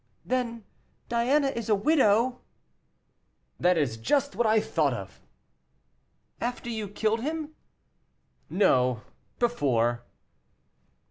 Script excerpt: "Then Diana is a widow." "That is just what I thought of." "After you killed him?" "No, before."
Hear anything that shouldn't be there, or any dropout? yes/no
no